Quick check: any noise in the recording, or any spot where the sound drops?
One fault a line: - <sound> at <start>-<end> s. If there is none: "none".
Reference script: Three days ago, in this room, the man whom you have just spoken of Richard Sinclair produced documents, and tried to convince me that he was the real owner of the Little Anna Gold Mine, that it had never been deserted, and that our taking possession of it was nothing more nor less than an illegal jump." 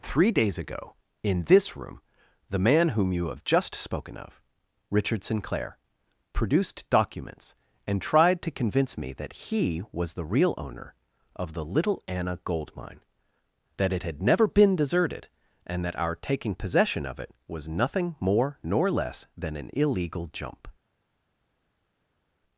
none